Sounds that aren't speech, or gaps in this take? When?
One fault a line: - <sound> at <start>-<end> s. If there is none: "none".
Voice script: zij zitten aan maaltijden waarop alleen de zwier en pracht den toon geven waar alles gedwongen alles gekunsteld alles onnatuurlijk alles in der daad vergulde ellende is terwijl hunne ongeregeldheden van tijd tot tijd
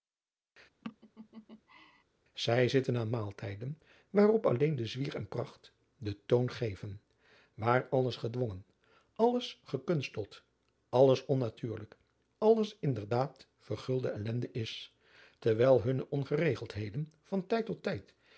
- laugh at 0.8-2.0 s